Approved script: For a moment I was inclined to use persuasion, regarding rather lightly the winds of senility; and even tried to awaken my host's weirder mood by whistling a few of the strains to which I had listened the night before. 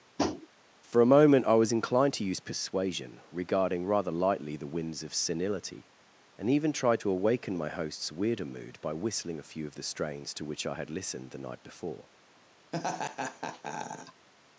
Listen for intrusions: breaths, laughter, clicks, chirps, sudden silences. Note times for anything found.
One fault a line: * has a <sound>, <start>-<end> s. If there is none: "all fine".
* has a tap, 0.2-0.5 s
* has a laugh, 12.7-14.3 s